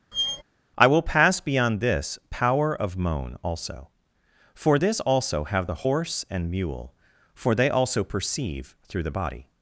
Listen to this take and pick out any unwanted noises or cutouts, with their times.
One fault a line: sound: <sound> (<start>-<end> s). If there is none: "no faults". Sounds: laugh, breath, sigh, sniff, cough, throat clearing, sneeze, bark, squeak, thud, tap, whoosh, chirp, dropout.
sound: squeak (0.1-0.4 s)